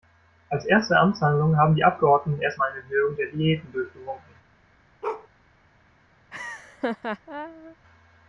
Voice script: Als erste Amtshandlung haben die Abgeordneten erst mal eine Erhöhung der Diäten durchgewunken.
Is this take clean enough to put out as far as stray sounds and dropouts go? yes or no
no